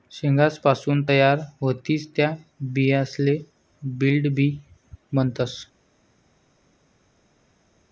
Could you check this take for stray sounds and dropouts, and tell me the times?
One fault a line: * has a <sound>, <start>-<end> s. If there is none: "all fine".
all fine